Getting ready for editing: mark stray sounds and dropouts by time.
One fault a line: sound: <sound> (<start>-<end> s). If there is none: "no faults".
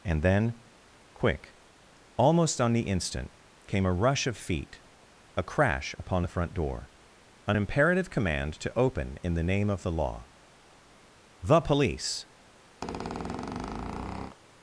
sound: squeak (12.8-14.4 s)